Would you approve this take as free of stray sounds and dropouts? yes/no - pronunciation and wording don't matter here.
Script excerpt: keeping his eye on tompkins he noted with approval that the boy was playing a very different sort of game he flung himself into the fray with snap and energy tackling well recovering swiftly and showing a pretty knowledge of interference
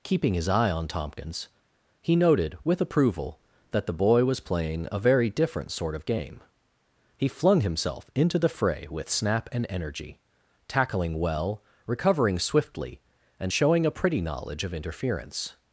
yes